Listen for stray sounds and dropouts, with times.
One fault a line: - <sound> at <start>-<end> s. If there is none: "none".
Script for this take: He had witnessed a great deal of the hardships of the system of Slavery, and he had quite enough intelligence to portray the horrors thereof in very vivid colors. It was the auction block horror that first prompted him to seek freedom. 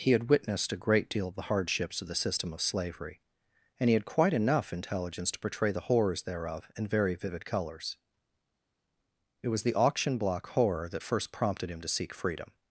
none